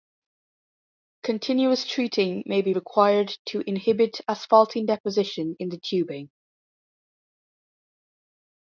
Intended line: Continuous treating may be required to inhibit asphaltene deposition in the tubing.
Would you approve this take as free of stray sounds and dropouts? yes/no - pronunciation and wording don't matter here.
yes